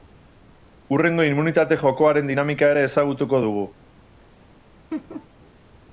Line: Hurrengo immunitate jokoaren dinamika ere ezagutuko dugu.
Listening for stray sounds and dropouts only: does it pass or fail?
fail